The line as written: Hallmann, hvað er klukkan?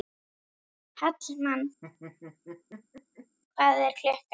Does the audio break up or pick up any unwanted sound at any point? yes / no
yes